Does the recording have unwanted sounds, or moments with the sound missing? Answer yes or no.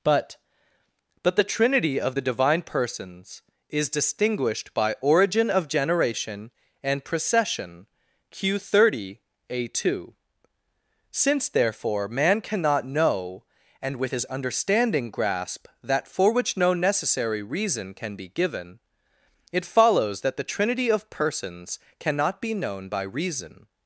no